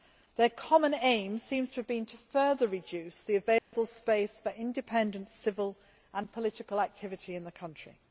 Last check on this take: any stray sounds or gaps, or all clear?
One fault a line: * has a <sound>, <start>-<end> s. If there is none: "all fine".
* has a dropout, 3.6-3.7 s